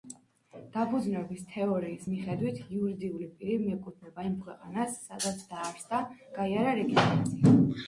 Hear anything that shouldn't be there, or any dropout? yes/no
no